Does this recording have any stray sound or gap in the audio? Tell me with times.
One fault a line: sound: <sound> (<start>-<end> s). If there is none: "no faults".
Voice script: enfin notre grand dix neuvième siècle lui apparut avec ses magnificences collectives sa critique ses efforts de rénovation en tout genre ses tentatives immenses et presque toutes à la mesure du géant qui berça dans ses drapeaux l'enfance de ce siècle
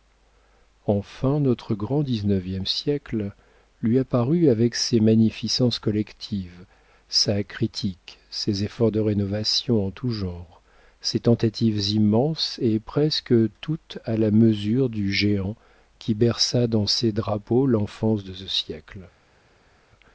no faults